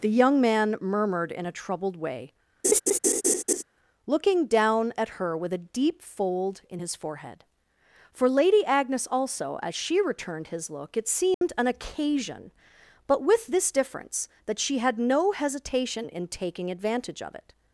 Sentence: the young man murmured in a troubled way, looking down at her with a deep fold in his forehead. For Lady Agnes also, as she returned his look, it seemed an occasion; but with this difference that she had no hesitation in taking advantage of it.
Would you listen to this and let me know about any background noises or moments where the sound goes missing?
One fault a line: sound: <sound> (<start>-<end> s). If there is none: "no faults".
sound: laugh (2.6-3.6 s)
sound: dropout (11.3-11.4 s)